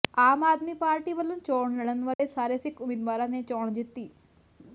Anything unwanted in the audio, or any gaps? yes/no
yes